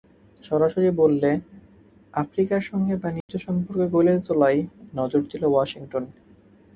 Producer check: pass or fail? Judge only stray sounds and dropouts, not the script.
fail